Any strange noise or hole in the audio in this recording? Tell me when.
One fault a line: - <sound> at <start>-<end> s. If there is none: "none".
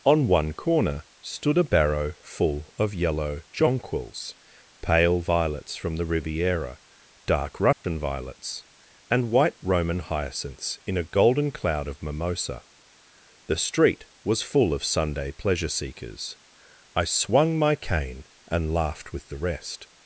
- dropout at 7.7-7.8 s